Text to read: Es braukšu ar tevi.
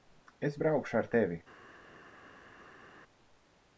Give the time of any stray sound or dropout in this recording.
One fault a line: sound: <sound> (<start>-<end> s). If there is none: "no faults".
no faults